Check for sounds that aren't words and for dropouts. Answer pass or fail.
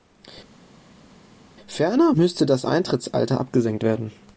pass